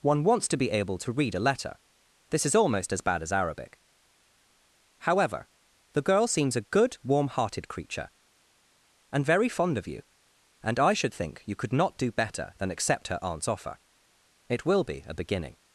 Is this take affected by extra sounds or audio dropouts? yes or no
no